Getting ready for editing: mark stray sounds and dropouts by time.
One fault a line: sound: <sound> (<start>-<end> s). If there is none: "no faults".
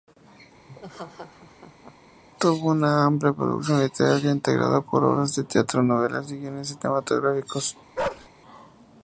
sound: laugh (0.7-2.0 s)
sound: bark (8.0-8.3 s)